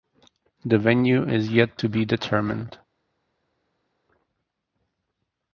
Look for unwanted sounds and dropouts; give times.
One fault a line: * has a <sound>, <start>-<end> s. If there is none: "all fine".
all fine